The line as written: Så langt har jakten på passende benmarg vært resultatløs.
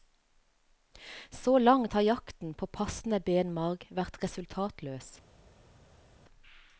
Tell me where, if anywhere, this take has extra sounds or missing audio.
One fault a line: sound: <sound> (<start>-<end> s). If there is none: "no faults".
no faults